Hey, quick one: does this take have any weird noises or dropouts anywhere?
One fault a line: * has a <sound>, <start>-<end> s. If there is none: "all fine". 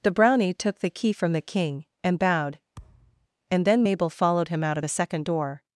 * has a thud, 2.8-3.3 s